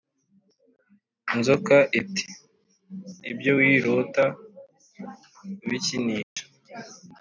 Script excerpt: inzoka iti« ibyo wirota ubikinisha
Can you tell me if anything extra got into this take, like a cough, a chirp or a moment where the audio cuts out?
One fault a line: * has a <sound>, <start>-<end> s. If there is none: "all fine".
* has a dropout, 6.2-6.4 s